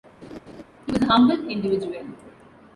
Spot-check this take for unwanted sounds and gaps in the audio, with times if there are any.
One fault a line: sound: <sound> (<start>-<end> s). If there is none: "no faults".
sound: laugh (0.2-0.6 s)